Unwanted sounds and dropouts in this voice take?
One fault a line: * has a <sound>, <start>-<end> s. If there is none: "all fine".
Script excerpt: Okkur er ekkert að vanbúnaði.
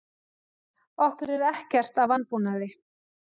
all fine